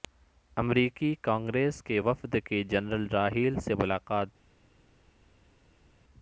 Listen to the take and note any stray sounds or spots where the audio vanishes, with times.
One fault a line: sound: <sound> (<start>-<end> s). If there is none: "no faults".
no faults